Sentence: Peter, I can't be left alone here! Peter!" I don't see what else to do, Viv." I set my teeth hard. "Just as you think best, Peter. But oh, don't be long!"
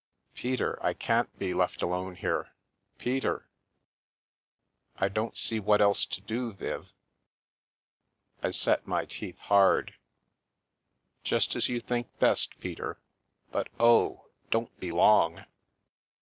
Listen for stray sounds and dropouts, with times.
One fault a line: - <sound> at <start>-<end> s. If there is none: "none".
none